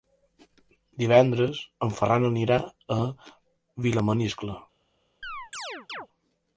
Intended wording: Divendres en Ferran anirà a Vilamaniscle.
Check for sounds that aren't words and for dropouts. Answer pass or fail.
fail